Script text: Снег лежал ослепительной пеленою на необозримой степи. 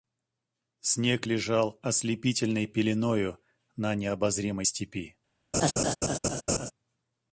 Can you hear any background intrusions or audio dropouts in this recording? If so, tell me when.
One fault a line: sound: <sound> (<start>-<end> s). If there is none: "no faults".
sound: laugh (5.5-6.7 s)